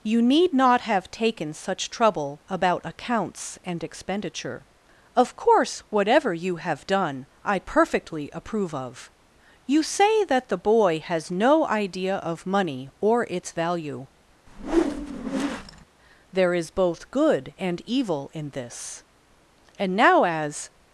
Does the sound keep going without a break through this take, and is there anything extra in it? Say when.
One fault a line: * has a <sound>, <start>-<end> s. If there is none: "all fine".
* has a whoosh, 14.5-15.9 s